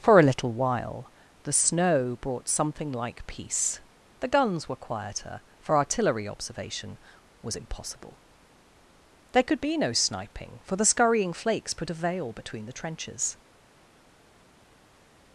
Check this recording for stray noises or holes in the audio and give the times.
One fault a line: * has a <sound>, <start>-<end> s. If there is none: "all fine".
all fine